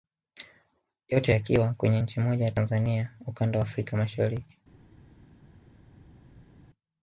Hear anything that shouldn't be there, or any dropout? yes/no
no